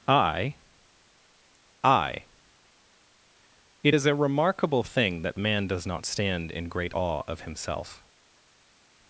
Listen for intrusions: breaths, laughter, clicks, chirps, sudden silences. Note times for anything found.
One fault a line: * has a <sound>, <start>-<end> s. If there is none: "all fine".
all fine